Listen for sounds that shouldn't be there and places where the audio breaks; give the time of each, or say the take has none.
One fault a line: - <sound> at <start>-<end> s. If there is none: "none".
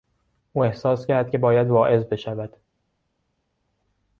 none